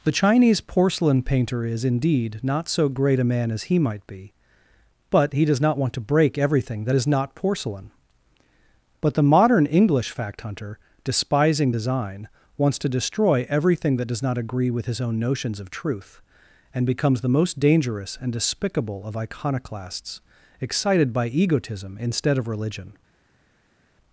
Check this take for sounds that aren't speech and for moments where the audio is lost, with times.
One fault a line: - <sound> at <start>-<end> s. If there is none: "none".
none